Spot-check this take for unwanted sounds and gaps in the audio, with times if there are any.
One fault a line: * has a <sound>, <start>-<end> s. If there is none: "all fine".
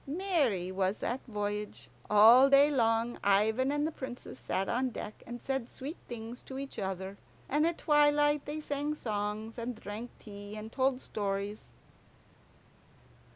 all fine